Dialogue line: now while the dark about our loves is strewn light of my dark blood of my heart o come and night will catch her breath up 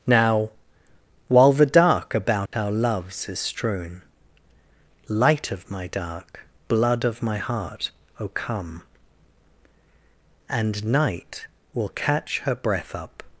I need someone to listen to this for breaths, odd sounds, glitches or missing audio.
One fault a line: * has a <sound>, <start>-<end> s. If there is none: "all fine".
* has a dropout, 2.5-2.5 s